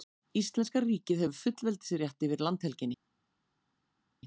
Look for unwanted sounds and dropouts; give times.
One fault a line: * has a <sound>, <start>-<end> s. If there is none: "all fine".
all fine